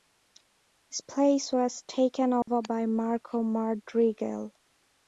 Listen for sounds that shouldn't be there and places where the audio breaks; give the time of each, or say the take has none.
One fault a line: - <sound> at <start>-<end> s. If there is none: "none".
- dropout at 2.4-2.5 s